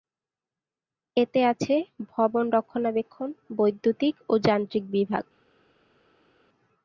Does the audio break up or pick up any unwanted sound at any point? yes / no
no